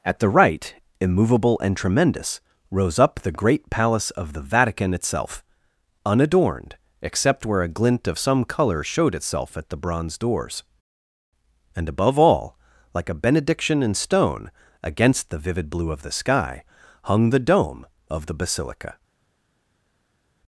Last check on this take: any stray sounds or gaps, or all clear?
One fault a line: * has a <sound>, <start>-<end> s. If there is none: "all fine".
all fine